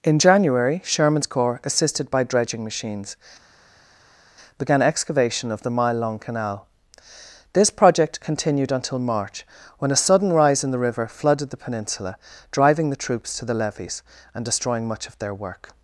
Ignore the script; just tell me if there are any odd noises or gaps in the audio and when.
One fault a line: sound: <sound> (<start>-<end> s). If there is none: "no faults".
no faults